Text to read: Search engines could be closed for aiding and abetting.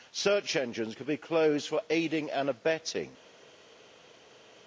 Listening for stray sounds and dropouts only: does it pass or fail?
pass